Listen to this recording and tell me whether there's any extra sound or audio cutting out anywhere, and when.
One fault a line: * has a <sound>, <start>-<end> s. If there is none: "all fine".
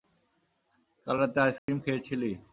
* has a dropout, 1.6-1.7 s